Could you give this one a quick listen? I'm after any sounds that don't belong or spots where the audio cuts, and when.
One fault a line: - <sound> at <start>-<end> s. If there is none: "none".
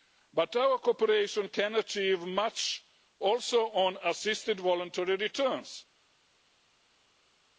none